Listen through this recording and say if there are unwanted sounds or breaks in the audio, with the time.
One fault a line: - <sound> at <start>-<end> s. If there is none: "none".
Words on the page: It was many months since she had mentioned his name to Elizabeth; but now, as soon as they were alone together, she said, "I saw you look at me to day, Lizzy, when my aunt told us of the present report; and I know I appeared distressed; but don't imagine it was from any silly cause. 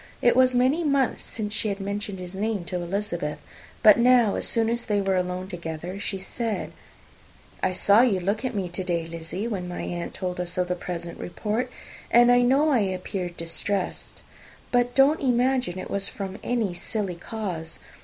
none